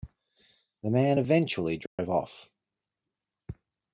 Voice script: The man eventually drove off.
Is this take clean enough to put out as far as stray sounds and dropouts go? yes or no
no